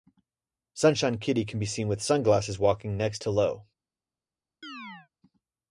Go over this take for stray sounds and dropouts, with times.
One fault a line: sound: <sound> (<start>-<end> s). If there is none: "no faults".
sound: chirp (4.6-5.1 s)